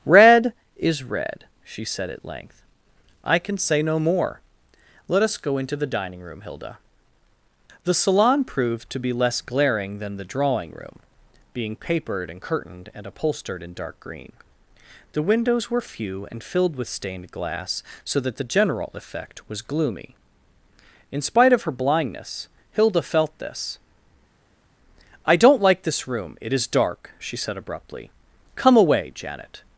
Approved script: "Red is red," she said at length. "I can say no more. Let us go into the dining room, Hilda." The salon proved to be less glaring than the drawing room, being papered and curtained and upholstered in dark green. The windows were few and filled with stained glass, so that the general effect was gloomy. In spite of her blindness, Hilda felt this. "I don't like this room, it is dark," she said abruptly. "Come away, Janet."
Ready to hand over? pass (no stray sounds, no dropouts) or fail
pass